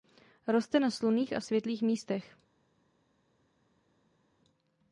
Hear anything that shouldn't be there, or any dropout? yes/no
no